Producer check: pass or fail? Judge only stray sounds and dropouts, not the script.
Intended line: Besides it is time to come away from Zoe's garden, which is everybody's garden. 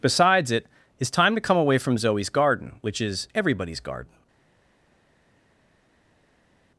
pass